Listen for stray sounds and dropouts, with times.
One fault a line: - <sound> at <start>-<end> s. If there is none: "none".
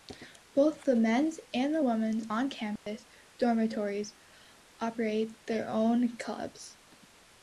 - dropout at 2.8-2.9 s